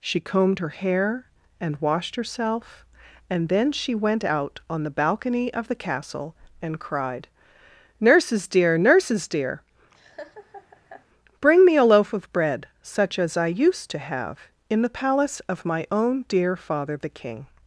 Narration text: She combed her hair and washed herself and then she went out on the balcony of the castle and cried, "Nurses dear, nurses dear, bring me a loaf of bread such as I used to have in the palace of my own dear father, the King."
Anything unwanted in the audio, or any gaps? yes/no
yes